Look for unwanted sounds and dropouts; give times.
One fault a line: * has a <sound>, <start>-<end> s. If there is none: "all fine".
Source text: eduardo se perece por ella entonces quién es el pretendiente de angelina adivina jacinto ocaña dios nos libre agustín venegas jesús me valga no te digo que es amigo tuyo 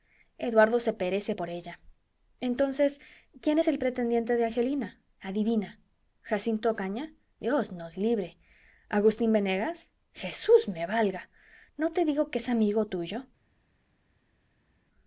all fine